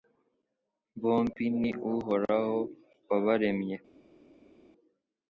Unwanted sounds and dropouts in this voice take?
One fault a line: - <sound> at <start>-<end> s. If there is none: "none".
none